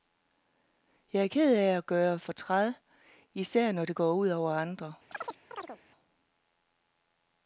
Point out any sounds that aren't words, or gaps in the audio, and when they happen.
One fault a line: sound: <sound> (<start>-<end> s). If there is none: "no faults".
sound: chirp (5.1-5.8 s)